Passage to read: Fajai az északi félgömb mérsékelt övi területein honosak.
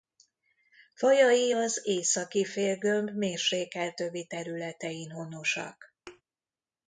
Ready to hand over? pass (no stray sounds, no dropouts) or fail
fail